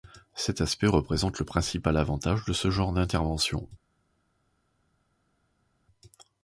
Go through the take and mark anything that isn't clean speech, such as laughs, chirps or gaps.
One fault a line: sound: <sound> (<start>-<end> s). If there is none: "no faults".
no faults